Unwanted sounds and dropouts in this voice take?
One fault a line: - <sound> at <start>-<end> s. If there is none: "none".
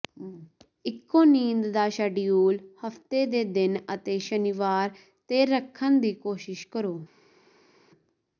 none